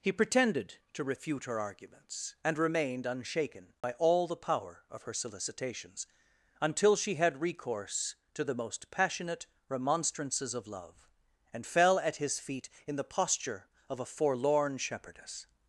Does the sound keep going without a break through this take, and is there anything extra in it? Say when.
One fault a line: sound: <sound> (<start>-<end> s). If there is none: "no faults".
sound: dropout (3.8-3.8 s)